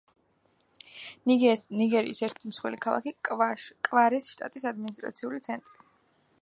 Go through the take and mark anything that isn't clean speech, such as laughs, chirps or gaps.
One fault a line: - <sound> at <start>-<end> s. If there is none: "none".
none